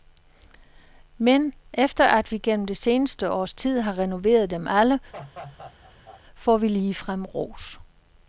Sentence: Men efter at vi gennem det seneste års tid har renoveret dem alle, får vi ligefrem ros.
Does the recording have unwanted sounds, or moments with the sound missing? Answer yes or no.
yes